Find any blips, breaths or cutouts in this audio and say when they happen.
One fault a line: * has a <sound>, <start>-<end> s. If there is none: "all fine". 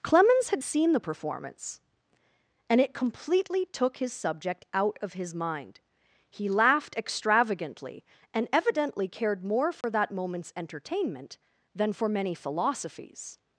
* has a dropout, 9.8-9.8 s